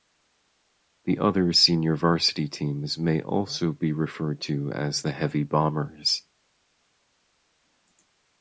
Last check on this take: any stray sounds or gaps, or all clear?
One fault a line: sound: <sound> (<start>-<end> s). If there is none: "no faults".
no faults